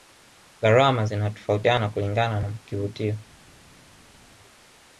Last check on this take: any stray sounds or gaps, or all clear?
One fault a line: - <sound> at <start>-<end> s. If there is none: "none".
none